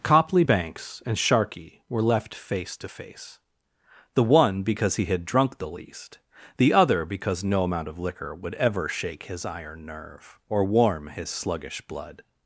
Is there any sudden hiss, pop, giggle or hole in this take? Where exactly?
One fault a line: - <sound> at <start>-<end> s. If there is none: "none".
none